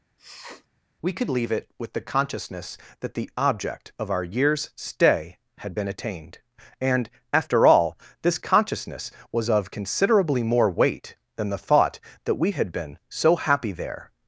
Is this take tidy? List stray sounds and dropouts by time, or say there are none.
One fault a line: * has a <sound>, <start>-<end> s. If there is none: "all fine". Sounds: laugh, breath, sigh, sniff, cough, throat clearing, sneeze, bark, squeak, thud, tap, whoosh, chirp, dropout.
* has a sniff, 0.2-0.7 s